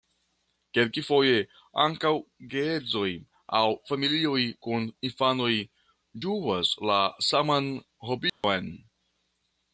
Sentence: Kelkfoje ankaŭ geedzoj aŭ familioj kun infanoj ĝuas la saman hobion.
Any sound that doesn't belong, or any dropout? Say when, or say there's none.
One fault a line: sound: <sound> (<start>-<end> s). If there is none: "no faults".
sound: dropout (8.3-8.4 s)